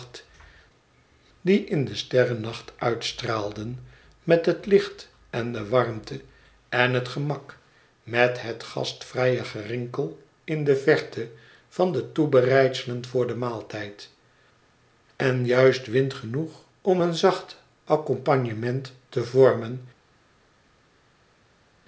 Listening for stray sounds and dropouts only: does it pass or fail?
pass